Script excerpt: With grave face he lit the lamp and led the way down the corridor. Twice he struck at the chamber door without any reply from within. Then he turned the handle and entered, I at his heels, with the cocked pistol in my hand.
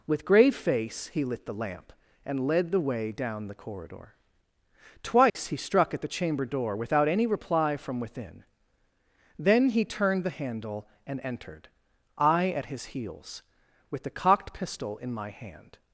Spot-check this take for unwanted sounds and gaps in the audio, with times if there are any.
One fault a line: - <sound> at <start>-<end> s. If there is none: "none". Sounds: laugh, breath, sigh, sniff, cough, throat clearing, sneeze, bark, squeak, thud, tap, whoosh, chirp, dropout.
- dropout at 5.3-5.4 s